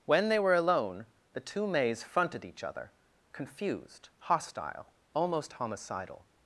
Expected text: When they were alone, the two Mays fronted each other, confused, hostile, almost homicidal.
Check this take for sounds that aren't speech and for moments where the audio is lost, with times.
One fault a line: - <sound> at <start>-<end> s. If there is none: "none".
none